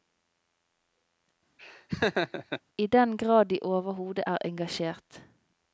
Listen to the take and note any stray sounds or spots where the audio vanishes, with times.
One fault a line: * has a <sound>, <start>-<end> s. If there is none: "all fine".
* has a laugh, 1.6-2.6 s